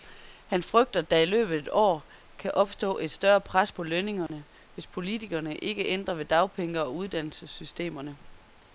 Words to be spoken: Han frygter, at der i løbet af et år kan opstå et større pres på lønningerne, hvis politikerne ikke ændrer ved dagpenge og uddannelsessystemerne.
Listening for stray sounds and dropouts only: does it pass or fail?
fail